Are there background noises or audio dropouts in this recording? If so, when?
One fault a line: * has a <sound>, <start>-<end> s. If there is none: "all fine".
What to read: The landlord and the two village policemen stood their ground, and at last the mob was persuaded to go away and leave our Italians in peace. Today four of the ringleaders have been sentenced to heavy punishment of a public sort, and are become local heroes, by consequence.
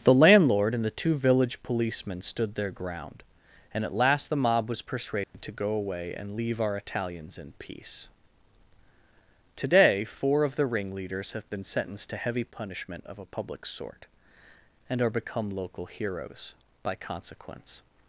* has a dropout, 5.2-5.3 s